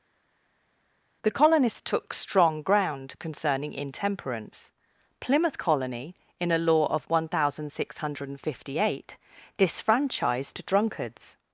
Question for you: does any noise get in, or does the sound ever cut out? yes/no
no